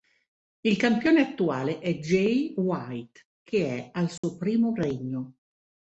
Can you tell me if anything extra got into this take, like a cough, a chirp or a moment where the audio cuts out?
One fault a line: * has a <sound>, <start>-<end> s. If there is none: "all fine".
* has a dropout, 4.2-4.2 s